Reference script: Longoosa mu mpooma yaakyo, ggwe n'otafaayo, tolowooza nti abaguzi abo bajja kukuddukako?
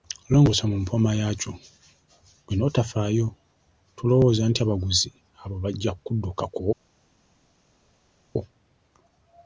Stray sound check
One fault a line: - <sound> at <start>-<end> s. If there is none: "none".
none